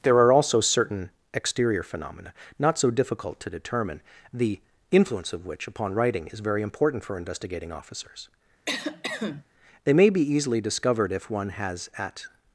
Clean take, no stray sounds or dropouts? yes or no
no